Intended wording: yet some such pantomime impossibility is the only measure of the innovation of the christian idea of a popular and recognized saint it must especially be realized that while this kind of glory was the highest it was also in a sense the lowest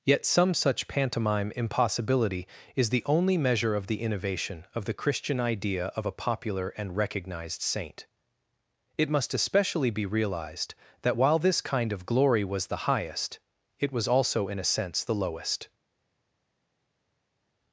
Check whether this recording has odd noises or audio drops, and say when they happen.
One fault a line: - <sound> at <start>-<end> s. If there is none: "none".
none